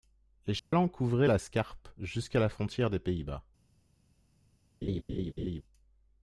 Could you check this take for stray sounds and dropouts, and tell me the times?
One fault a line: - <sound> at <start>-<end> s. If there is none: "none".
- dropout at 0.6-0.7 s
- laugh at 4.8-5.6 s